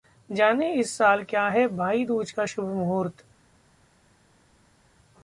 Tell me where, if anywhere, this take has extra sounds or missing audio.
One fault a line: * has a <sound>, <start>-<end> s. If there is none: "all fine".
all fine